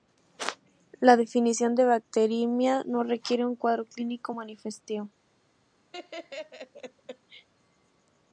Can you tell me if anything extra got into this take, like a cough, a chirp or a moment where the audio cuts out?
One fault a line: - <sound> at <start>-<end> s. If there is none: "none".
- laugh at 5.9-7.5 s